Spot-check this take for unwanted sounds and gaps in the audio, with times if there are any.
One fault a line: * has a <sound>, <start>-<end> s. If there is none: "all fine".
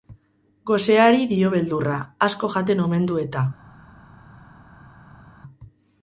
all fine